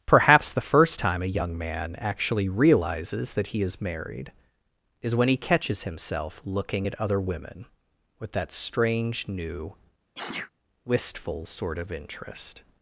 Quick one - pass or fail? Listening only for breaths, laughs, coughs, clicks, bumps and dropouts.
fail